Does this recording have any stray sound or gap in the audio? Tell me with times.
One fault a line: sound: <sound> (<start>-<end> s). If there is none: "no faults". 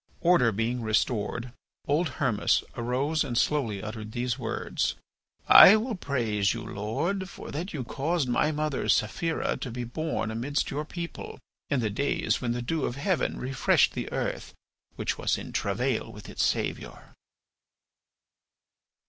no faults